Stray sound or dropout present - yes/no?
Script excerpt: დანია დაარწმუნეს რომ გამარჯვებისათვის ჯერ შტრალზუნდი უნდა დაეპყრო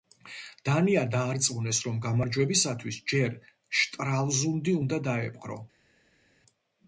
no